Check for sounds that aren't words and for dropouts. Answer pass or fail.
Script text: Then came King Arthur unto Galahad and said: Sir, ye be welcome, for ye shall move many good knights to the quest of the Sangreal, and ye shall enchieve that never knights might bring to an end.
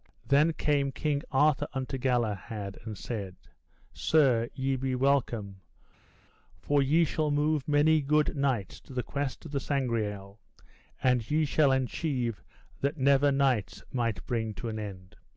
pass